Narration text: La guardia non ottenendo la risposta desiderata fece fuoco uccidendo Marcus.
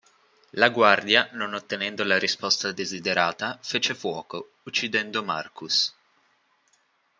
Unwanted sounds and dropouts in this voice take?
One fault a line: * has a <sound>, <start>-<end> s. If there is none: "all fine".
all fine